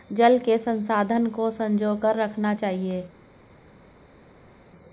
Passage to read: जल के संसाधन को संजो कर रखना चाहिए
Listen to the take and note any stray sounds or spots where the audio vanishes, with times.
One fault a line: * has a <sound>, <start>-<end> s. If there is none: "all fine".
all fine